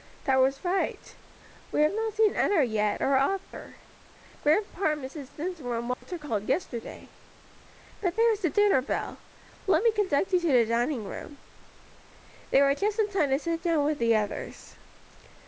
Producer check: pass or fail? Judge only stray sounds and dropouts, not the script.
fail